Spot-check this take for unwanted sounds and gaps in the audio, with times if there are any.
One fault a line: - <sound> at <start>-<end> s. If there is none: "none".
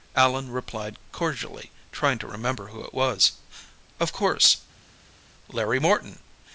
none